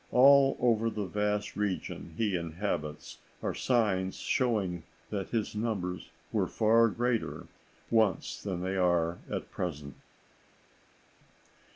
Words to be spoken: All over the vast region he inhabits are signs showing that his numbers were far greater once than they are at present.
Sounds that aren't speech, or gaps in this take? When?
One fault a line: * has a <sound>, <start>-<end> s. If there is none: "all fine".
all fine